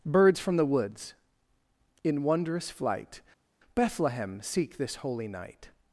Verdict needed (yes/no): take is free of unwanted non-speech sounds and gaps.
yes